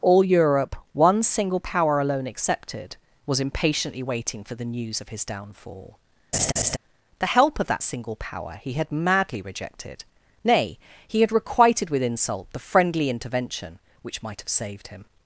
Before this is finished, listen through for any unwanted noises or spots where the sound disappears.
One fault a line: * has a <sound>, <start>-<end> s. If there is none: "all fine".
* has a laugh, 6.3-6.8 s